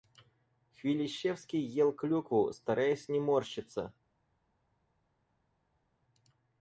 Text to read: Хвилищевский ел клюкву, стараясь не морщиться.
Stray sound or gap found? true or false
false